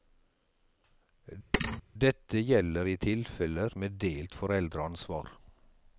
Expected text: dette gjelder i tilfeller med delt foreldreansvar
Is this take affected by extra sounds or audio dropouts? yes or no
yes